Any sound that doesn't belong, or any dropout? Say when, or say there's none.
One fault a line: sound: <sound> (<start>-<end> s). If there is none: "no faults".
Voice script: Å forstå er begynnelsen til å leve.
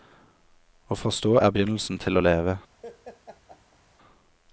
sound: laugh (2.8-3.8 s)